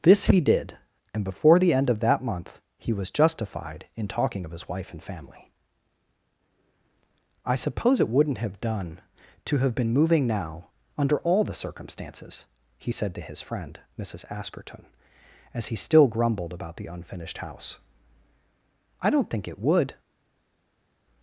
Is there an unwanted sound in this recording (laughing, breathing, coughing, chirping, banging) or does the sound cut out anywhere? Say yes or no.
no